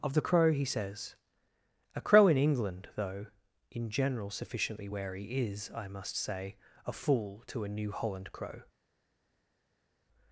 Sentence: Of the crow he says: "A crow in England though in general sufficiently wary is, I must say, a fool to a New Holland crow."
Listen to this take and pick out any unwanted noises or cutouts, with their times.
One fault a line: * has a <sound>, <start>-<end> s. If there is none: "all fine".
all fine